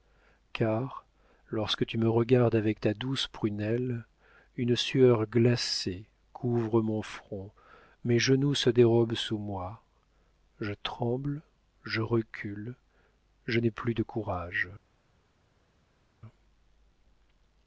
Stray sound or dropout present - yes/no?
no